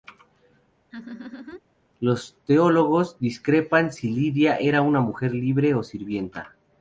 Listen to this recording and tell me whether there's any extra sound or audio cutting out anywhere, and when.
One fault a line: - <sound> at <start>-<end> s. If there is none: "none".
- laugh at 0.9-1.6 s